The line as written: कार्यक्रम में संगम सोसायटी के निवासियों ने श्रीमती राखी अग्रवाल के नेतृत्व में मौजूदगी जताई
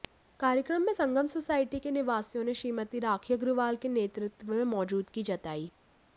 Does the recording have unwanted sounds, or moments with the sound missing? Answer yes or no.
no